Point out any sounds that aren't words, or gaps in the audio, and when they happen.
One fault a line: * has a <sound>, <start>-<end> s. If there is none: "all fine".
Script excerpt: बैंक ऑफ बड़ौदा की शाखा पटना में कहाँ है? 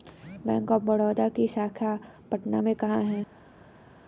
all fine